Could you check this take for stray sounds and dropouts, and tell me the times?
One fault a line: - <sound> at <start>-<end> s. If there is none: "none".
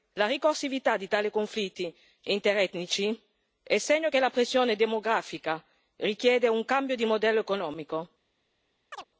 - chirp at 8.9-9.0 s